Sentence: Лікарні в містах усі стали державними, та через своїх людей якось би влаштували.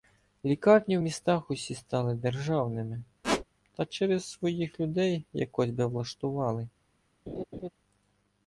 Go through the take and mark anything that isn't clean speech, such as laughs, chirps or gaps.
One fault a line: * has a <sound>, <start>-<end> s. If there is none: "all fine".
* has a squeak, 3.2-3.4 s
* has a laugh, 7.3-7.7 s